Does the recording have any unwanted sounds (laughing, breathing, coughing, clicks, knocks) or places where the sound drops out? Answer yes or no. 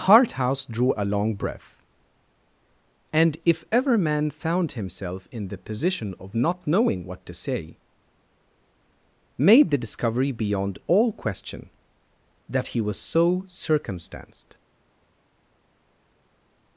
no